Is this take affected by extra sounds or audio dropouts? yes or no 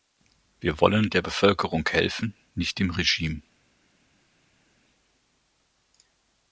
no